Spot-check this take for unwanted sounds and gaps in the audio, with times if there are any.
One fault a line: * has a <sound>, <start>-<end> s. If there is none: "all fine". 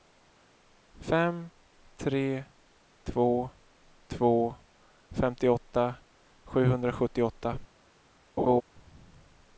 * has a laugh, 8.4-8.6 s